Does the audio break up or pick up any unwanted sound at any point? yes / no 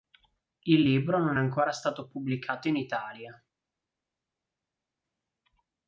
no